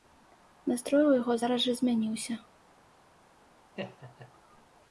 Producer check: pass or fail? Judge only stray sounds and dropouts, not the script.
fail